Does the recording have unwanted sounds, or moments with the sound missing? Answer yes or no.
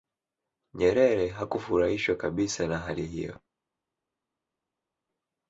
no